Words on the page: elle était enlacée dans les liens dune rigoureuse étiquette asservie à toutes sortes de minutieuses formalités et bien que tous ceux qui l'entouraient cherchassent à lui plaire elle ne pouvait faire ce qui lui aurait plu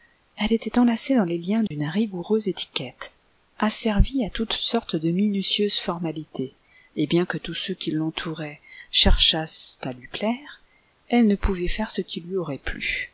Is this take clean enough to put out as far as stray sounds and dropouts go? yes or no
no